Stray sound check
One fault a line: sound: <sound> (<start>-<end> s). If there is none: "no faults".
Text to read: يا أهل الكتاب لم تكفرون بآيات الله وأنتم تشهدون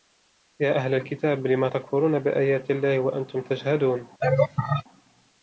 sound: laugh (4.2-4.8 s)